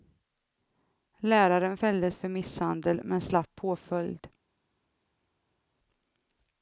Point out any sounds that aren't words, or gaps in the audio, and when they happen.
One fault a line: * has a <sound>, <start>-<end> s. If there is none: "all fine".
all fine